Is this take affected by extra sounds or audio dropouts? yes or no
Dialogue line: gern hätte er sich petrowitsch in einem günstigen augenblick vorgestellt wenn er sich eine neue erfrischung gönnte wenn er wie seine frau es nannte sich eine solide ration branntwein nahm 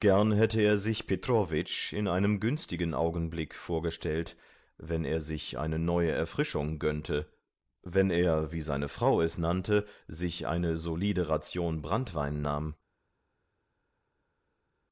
no